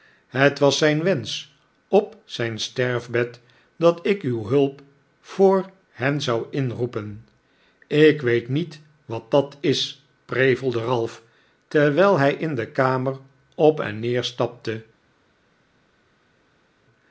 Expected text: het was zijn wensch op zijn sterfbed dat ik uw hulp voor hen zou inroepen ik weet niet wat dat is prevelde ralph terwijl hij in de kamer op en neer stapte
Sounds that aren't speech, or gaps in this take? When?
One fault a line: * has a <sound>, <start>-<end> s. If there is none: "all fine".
all fine